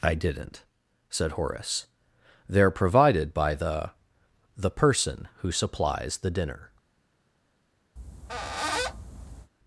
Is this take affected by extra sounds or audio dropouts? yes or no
yes